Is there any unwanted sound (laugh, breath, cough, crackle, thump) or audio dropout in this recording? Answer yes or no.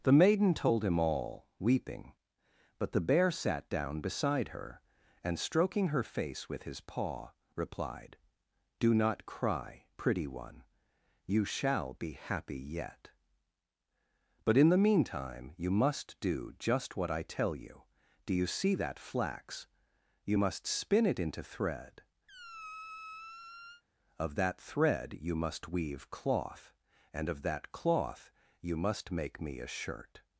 yes